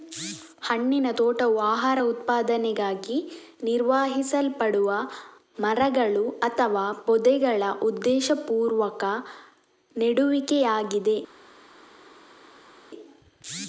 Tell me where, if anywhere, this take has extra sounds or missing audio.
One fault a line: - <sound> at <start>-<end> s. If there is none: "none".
none